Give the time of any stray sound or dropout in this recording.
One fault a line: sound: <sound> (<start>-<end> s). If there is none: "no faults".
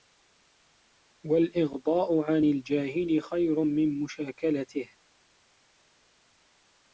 no faults